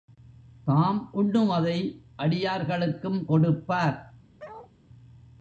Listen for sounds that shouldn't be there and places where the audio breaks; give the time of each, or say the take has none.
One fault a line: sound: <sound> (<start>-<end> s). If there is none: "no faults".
sound: bark (4.4-4.7 s)